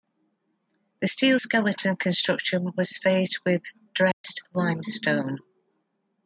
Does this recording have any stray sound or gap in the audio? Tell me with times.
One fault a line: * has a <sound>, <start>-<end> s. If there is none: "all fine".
* has a dropout, 4.1-4.2 s